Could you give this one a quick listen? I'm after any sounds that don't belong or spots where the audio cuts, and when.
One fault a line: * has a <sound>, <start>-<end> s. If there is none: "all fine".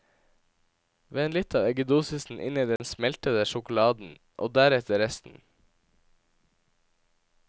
* has a dropout, 2.8-2.8 s